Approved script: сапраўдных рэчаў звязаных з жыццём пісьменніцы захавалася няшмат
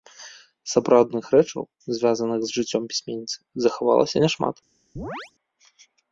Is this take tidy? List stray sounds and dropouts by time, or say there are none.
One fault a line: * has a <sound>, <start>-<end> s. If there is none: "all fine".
* has a chirp, 5.0-5.3 s